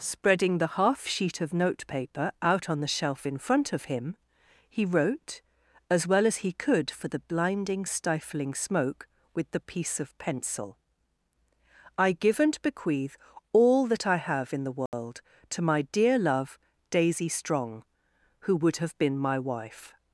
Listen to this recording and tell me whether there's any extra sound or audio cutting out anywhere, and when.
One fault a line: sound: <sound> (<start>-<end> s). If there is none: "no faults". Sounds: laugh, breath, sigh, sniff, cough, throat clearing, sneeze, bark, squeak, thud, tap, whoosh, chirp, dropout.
sound: dropout (14.9-14.9 s)